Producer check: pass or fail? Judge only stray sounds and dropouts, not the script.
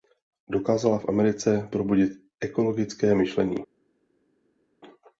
pass